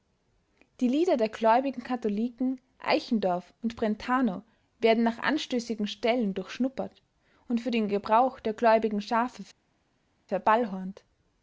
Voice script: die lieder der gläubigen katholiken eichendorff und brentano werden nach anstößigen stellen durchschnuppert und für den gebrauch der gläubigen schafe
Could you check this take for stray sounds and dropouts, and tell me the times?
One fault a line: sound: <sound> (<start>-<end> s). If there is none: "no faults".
no faults